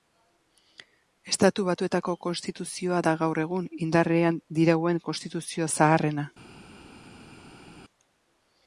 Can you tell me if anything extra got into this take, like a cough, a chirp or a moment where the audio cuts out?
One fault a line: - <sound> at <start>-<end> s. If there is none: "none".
none